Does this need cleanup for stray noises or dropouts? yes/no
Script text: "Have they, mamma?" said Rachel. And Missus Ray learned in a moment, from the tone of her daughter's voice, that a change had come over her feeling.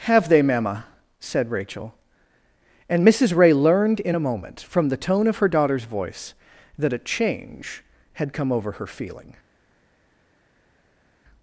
no